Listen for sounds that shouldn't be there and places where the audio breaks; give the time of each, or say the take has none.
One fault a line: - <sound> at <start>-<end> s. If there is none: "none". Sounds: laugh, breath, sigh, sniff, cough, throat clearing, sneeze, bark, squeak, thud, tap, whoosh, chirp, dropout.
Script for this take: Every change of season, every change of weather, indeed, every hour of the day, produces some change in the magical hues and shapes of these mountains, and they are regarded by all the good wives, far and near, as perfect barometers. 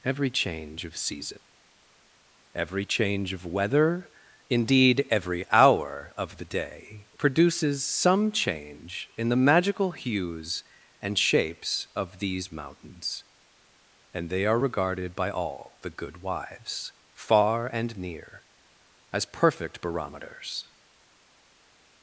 none